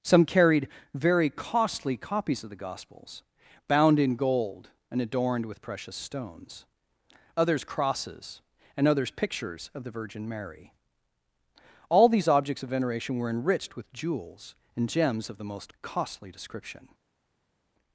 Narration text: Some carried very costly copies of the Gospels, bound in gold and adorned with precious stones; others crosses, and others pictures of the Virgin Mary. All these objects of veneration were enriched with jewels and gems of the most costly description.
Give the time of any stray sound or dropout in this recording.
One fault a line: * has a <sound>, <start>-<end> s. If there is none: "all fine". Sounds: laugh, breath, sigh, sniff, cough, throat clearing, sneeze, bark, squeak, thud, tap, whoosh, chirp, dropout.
all fine